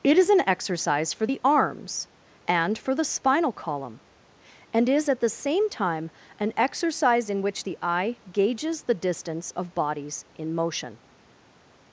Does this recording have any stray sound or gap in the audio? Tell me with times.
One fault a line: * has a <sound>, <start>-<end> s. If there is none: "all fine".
all fine